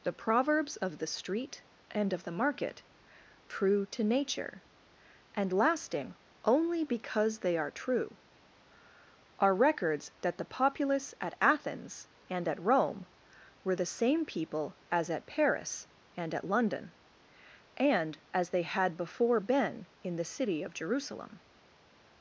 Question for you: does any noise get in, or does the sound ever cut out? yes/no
no